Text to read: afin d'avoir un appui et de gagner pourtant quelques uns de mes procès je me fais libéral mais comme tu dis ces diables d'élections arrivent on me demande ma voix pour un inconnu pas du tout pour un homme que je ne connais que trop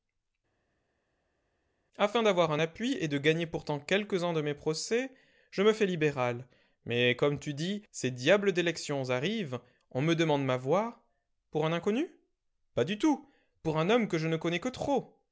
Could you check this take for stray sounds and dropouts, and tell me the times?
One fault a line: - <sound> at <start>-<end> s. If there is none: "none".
none